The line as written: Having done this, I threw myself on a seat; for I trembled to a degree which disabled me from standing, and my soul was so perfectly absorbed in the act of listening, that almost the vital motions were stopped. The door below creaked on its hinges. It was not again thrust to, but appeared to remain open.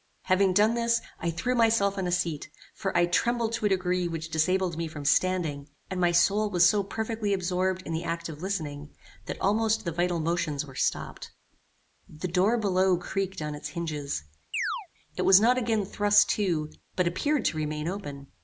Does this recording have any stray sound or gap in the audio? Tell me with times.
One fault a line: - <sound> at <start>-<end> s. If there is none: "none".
- chirp at 14.5-14.9 s